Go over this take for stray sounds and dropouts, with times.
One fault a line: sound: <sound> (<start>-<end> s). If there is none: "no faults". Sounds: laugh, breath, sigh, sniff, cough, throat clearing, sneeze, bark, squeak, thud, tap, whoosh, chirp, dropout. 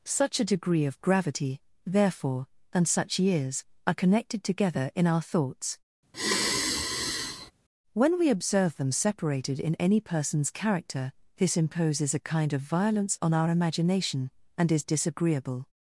sound: sigh (6.1-7.5 s)